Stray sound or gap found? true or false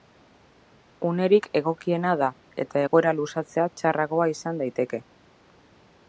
false